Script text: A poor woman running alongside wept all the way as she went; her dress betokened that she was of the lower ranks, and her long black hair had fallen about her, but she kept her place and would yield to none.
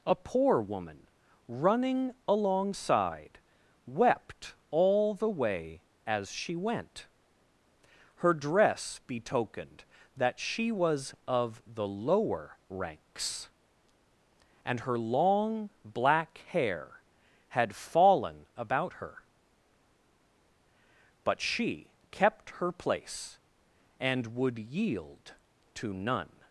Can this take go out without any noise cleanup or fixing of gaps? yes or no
yes